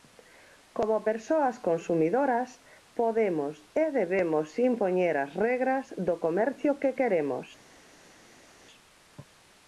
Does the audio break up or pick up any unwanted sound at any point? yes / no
no